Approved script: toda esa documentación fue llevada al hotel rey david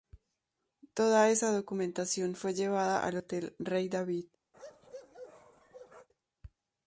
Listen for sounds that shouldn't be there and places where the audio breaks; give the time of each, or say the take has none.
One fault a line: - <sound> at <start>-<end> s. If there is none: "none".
- bark at 4.5-6.1 s